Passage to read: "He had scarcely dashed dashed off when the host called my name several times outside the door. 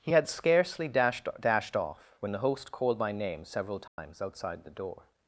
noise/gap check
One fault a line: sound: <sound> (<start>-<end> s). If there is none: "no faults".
sound: dropout (3.9-4.0 s)